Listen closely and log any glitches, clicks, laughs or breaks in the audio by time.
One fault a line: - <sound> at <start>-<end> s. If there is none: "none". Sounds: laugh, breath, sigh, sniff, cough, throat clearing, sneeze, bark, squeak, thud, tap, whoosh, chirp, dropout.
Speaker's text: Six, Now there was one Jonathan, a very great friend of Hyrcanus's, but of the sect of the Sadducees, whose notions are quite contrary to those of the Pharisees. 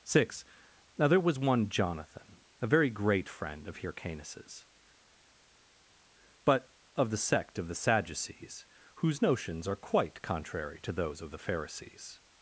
none